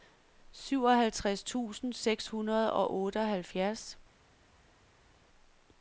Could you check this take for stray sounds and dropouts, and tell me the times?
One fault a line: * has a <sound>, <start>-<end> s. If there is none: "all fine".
all fine